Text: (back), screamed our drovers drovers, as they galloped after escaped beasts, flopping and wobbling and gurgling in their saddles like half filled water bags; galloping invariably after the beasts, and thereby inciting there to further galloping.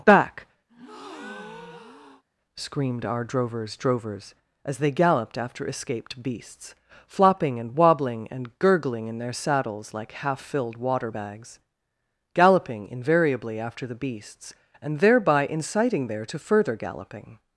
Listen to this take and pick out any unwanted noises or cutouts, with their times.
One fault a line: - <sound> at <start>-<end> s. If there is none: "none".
- breath at 0.7-2.2 s